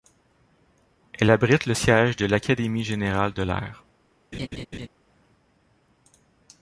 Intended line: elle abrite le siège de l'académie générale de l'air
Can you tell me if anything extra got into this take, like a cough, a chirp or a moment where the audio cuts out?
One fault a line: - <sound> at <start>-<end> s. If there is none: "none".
- laugh at 4.3-4.9 s